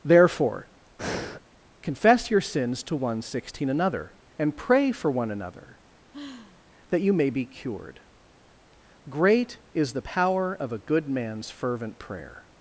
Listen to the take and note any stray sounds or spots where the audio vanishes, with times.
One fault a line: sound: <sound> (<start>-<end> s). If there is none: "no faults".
sound: breath (1.0-1.4 s)
sound: sigh (6.1-6.6 s)